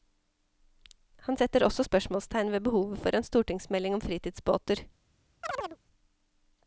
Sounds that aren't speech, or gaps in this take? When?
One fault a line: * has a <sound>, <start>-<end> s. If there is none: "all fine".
* has a chirp, 5.4-5.8 s